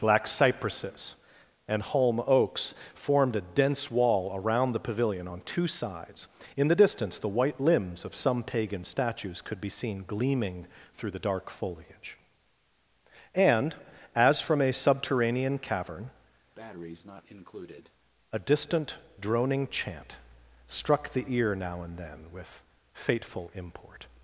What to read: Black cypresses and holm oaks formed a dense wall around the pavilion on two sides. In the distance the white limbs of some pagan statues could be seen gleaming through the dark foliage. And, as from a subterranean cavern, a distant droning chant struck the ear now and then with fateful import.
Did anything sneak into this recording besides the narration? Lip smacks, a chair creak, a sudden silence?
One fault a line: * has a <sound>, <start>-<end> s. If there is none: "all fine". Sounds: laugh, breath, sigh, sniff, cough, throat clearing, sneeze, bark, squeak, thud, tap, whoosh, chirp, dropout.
* has a breath, 16.5-17.9 s